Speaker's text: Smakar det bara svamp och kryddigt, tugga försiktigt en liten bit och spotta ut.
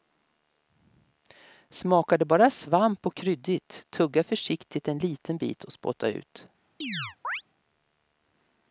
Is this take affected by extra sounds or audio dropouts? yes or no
yes